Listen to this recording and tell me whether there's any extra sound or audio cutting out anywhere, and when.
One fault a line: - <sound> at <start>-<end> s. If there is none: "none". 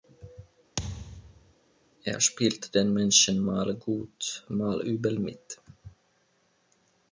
- thud at 0.8-1.5 s